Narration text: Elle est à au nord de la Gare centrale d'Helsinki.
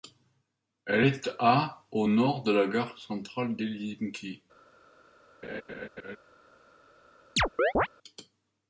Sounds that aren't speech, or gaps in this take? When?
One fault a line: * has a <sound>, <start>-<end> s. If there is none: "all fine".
* has a laugh, 5.4-6.2 s
* has a chirp, 7.4-7.9 s